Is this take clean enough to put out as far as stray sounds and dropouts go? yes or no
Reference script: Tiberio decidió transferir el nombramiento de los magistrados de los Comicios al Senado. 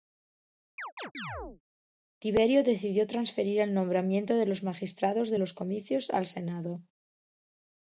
no